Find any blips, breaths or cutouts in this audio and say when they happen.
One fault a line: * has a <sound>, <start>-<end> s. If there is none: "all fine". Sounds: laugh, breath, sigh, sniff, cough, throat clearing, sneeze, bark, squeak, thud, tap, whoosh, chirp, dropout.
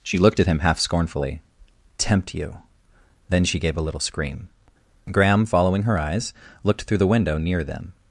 all fine